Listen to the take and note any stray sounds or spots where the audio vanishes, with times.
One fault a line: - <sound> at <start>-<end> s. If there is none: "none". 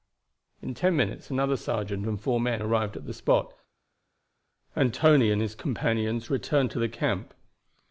none